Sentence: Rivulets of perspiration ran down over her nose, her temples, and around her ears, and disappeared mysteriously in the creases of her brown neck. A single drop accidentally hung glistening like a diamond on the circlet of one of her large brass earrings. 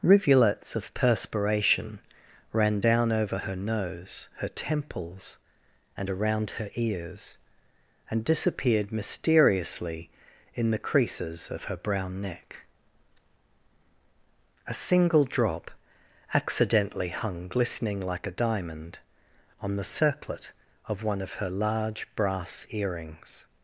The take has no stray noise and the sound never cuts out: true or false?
true